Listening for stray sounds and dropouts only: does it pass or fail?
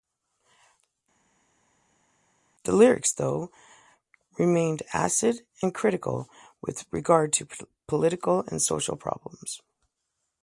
pass